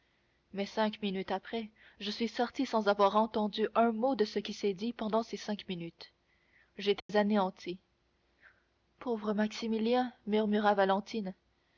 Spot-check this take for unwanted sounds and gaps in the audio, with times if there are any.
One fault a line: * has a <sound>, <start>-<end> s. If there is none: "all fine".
* has a dropout, 7.0-7.1 s